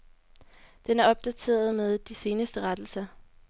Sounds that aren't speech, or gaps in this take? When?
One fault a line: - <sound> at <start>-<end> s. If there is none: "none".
none